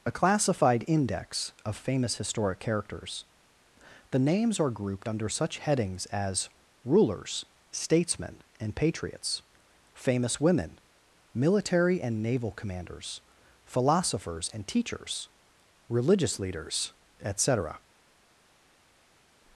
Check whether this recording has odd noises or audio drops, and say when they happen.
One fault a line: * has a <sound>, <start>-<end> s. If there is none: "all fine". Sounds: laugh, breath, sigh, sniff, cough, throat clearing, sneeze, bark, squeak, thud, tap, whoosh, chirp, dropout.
all fine